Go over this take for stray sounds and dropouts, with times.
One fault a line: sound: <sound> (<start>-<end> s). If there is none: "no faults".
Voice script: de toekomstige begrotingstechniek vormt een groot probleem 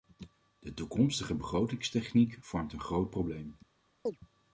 sound: chirp (4.1-4.2 s)